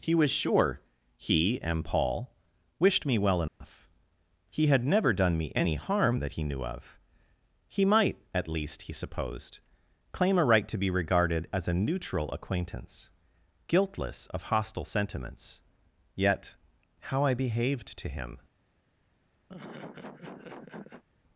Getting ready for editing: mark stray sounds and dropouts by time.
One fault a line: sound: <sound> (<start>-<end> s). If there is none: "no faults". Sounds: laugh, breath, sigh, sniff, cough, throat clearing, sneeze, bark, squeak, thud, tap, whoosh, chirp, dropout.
sound: dropout (3.5-3.6 s)
sound: laugh (19.5-21.0 s)